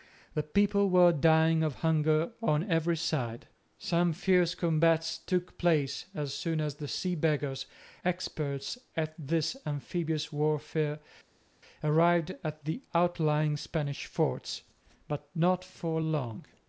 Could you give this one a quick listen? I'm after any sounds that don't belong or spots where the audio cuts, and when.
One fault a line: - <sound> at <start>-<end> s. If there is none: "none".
none